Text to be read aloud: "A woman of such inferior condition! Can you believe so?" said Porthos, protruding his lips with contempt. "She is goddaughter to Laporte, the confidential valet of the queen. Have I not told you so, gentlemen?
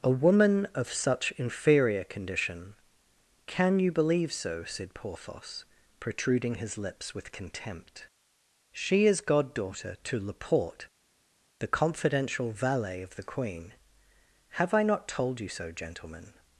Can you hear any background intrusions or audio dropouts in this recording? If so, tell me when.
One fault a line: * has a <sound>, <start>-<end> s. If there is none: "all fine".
all fine